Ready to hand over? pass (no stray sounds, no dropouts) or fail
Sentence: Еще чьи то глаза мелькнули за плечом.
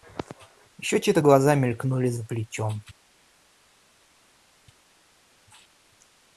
pass